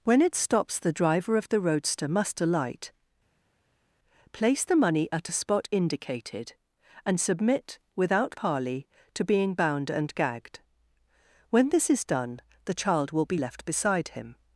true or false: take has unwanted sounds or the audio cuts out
false